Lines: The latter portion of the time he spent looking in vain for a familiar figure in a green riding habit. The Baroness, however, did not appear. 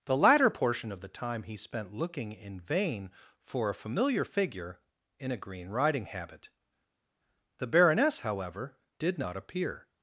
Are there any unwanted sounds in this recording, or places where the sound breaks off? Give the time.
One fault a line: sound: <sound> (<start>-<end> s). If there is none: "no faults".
no faults